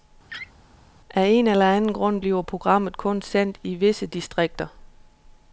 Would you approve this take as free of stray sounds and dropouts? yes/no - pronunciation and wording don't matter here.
no